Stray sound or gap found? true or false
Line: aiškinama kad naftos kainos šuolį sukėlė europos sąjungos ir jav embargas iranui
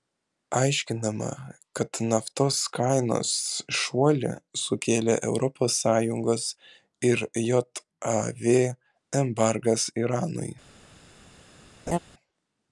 true